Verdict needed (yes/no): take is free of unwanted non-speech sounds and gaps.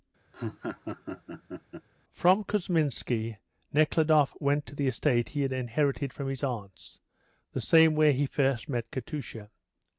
no